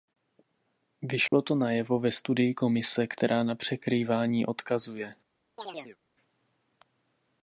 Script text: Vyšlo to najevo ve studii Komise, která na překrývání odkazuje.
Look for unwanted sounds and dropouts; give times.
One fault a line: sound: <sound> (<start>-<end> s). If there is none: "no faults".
sound: dropout (1.3-1.3 s)
sound: chirp (5.6-6.0 s)